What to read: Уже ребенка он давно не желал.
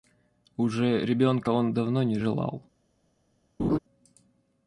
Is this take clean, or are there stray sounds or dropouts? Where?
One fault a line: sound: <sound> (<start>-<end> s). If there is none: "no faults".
sound: laugh (3.6-3.8 s)